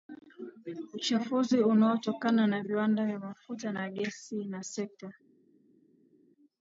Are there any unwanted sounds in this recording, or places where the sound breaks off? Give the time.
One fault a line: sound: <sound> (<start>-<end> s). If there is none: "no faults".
no faults